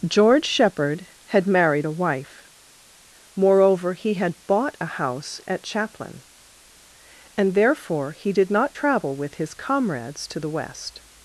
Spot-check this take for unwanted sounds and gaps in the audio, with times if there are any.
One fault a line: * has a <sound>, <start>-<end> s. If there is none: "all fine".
all fine